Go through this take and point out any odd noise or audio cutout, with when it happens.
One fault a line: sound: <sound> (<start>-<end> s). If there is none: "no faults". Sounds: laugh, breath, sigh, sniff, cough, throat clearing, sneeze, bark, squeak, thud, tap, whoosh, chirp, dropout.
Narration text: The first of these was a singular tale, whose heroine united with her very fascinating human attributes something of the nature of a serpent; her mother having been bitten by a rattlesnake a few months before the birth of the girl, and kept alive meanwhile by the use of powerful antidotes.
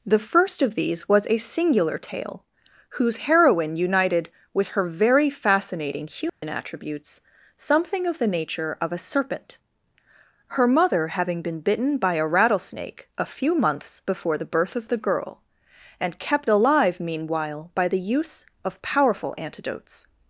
sound: dropout (6.3-6.4 s)